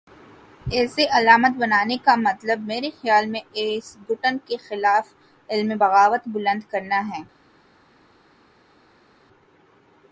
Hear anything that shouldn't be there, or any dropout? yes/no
no